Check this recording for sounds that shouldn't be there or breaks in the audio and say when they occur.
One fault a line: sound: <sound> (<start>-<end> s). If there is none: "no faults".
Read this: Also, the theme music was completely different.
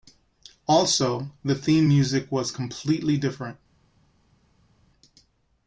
no faults